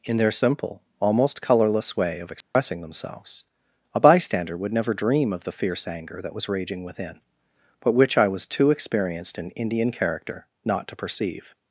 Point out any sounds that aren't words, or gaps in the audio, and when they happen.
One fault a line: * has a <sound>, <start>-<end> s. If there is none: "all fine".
* has a dropout, 2.4-2.5 s